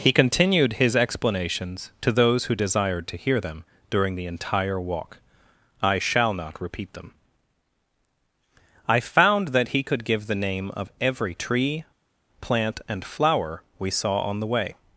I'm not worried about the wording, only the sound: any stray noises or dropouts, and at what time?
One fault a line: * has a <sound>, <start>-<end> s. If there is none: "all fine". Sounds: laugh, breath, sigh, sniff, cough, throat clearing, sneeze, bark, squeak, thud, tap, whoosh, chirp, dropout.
all fine